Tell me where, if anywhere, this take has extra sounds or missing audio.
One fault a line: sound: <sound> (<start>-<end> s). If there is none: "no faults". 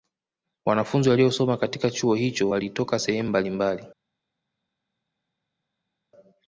no faults